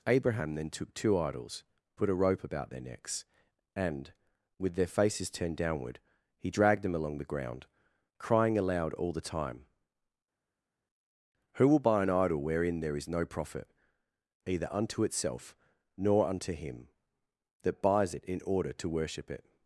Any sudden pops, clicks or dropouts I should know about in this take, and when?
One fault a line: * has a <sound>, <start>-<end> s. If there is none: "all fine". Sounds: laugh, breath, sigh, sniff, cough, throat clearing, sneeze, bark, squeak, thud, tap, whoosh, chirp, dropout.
all fine